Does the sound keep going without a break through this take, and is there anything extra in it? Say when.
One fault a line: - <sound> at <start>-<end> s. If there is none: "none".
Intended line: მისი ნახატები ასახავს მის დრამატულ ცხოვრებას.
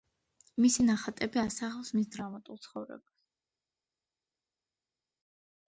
none